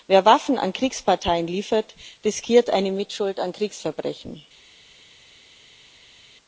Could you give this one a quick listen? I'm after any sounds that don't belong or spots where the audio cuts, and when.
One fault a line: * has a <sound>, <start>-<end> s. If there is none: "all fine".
all fine